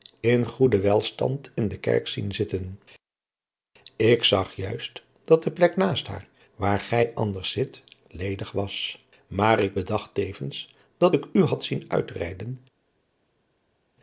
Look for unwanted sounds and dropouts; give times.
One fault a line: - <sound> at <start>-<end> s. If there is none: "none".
none